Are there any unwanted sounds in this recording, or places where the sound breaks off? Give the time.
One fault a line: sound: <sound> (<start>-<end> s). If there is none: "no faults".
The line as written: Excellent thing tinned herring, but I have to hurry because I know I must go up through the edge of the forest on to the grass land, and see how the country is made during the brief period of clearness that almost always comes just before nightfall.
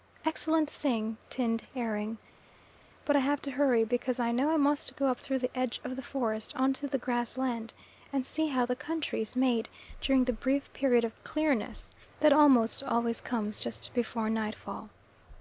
no faults